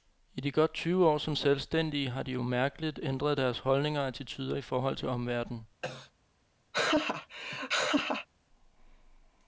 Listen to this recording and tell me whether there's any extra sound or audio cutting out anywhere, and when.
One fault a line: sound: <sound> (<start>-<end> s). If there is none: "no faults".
sound: cough (5.8-6.1 s)
sound: laugh (6.7-8.3 s)